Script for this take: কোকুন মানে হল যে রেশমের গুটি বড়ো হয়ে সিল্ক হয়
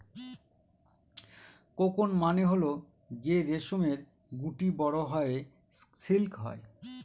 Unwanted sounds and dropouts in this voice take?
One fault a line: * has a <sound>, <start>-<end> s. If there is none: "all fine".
all fine